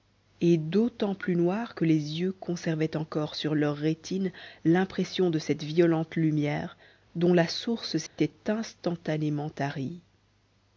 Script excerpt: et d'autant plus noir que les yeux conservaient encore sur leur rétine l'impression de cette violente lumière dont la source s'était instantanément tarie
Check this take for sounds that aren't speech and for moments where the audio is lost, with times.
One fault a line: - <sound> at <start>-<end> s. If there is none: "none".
- dropout at 8.1-8.2 s